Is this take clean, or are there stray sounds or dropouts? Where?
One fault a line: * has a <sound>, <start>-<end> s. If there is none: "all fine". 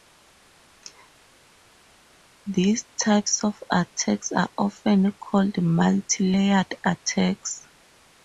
all fine